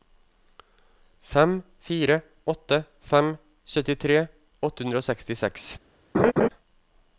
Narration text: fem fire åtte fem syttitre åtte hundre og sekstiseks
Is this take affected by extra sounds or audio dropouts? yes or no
yes